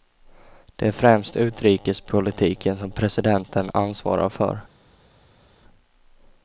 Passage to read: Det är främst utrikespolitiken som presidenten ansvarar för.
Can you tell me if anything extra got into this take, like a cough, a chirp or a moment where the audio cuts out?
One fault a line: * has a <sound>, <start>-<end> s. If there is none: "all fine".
all fine